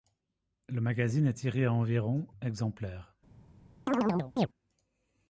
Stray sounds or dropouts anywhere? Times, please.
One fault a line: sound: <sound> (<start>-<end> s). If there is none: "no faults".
sound: chirp (3.9-4.5 s)